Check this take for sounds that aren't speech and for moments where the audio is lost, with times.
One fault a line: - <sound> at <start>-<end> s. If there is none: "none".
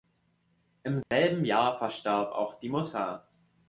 - dropout at 1.0-1.1 s